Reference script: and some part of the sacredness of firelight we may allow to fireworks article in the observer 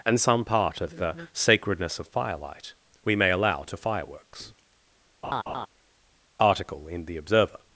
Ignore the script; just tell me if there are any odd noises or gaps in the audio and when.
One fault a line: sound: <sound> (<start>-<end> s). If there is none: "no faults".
sound: laugh (5.2-5.7 s)